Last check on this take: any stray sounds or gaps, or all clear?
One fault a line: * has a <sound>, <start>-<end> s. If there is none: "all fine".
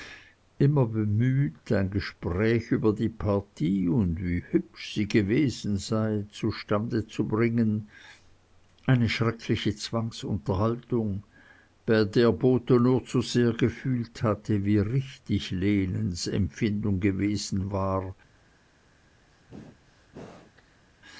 * has a sneeze, 19.3-20.8 s